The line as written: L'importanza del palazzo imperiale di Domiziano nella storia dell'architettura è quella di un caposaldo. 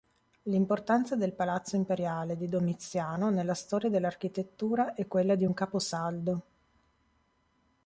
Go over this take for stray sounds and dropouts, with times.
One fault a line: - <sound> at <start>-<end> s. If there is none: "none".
none